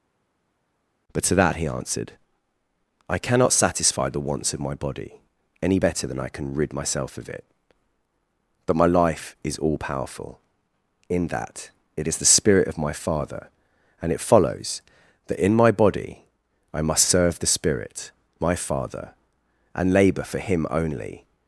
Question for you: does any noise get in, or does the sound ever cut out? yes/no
no